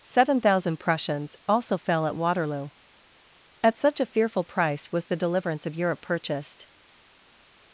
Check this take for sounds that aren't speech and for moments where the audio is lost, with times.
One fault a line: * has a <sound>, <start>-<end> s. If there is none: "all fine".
all fine